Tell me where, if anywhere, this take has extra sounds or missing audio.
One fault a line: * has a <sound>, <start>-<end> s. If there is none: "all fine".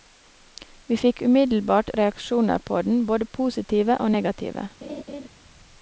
* has a laugh, 4.8-5.3 s